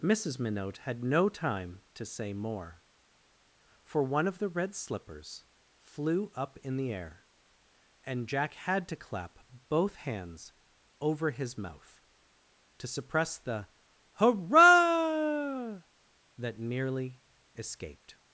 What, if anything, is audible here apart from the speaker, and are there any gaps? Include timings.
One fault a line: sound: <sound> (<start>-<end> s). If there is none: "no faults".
no faults